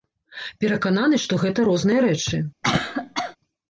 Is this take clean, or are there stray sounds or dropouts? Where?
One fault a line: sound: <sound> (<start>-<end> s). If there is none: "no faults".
sound: cough (2.6-3.4 s)